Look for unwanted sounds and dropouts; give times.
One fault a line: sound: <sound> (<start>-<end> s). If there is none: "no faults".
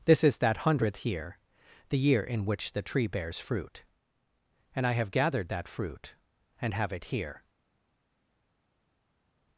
no faults